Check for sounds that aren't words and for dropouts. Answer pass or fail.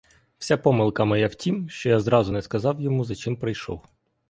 pass